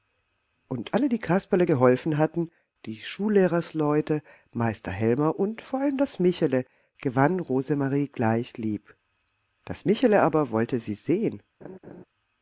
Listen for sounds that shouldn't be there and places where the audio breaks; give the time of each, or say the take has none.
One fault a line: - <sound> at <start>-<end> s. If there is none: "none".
- laugh at 11.6-12.0 s